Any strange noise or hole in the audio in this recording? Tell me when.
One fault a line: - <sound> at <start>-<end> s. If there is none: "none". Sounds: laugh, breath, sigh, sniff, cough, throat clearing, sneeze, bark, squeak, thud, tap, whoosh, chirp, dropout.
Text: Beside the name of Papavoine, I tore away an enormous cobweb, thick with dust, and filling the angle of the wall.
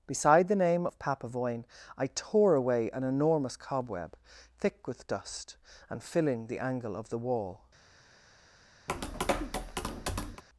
- tap at 8.9-10.4 s